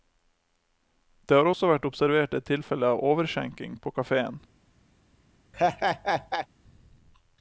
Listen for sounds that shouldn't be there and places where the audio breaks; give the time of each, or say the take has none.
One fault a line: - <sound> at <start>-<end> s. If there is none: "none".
- laugh at 5.5-6.5 s